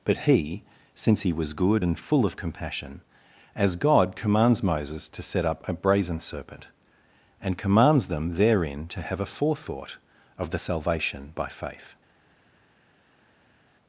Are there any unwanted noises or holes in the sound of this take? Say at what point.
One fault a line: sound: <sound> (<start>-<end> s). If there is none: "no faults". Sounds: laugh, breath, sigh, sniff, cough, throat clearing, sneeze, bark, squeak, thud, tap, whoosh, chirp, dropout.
no faults